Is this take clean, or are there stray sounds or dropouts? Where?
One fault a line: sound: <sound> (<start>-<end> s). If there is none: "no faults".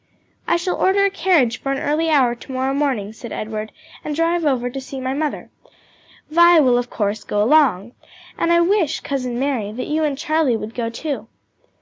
no faults